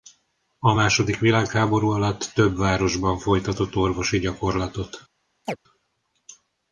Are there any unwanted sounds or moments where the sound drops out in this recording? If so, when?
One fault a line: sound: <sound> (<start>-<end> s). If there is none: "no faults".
sound: chirp (5.4-5.6 s)